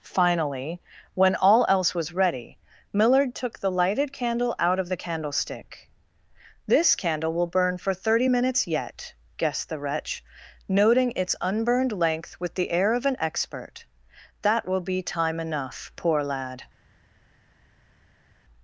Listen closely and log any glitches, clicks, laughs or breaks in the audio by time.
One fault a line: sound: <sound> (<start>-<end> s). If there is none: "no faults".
no faults